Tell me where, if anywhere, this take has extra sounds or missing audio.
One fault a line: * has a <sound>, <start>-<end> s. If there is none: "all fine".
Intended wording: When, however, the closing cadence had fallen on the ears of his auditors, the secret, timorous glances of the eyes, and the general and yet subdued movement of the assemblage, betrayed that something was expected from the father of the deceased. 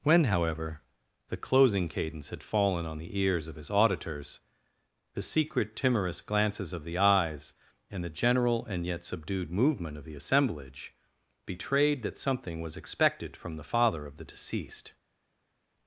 all fine